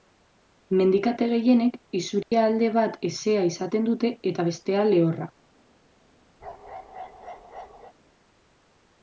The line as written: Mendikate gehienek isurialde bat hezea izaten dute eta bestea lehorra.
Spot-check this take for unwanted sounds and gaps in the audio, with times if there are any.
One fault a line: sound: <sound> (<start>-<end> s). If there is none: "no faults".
sound: dropout (2.2-2.3 s)
sound: bark (6.4-7.9 s)